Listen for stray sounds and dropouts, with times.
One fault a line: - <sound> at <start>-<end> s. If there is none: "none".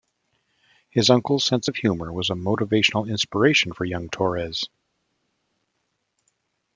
none